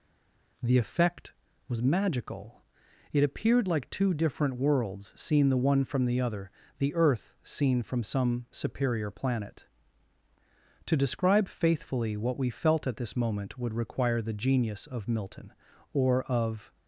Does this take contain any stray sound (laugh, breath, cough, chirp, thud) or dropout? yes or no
no